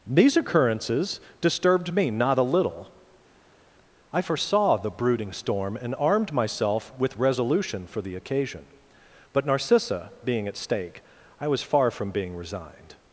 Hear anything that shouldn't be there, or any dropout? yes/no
no